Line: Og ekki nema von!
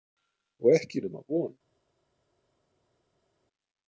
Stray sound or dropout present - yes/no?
no